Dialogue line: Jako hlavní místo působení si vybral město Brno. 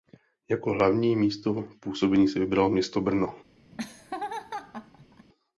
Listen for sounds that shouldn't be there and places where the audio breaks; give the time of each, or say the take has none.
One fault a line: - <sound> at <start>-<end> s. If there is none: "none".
- laugh at 3.7-5.3 s